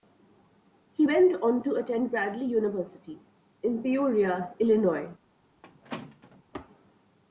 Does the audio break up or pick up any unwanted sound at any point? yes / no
yes